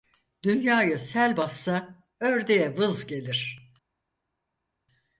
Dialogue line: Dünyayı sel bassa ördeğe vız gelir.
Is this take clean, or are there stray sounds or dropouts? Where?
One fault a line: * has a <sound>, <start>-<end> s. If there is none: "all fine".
all fine